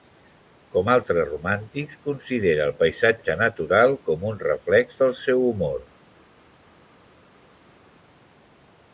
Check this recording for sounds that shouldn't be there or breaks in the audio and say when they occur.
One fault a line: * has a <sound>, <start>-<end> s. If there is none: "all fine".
all fine